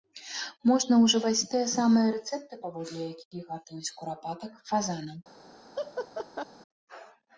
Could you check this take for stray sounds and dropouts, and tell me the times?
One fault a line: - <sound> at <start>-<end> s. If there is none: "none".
- laugh at 5.7-6.5 s